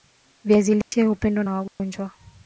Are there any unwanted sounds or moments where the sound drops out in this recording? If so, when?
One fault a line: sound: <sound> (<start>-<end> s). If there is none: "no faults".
sound: dropout (0.8-0.9 s)
sound: dropout (1.7-1.8 s)